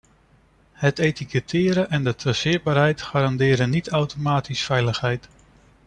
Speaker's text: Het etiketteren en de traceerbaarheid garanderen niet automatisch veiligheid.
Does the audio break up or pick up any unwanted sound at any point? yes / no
no